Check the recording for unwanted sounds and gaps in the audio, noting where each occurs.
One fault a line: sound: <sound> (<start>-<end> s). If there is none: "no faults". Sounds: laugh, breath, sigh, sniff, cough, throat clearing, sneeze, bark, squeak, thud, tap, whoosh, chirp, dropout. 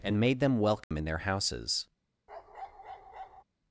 sound: dropout (0.8-0.9 s)
sound: bark (2.3-3.4 s)